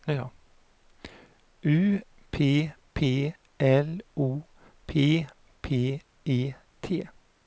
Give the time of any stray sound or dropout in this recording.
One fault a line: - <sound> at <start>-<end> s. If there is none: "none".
none